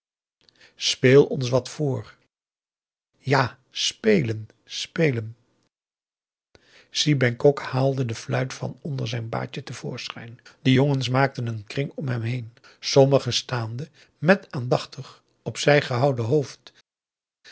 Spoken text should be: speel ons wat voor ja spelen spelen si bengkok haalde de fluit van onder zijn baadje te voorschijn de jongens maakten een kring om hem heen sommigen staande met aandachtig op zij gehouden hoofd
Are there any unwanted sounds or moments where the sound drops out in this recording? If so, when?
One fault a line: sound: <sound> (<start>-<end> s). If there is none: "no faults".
no faults